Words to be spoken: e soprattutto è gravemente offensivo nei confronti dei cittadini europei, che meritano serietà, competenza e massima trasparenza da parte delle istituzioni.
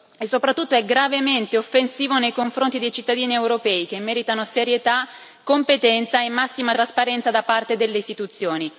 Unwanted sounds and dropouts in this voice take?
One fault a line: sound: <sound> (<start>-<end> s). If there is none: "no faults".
no faults